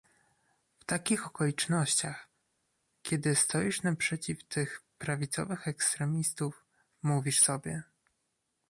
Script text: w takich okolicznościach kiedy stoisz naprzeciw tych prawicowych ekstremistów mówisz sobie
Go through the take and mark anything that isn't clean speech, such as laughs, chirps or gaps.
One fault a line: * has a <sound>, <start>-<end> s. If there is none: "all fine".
all fine